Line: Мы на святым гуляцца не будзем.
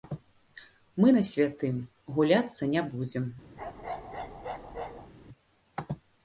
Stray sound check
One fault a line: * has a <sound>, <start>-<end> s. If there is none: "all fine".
* has a bark, 3.6-5.1 s